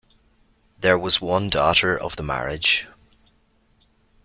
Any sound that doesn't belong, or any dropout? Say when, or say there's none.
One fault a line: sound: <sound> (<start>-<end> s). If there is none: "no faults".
no faults